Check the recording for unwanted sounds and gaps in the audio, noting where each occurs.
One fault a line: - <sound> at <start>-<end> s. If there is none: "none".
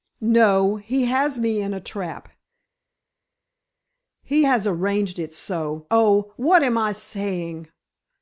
none